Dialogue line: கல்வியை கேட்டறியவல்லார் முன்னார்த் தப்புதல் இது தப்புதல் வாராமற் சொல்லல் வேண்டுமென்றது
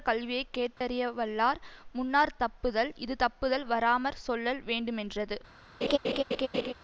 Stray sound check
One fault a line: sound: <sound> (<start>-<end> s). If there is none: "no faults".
sound: dropout (0.8-0.8 s)
sound: laugh (5.8-6.7 s)